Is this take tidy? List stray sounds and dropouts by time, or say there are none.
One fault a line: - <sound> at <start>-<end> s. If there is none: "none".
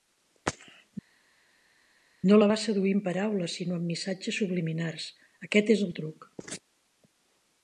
none